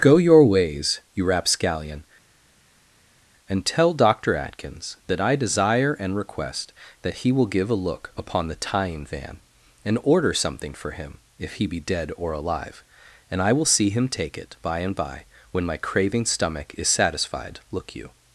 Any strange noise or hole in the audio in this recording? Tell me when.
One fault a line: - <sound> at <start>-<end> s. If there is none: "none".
none